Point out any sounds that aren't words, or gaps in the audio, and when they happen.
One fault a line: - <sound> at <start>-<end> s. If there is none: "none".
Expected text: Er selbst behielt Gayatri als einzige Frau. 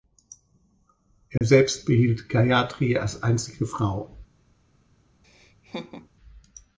- dropout at 1.4-1.4 s
- laugh at 5.2-6.1 s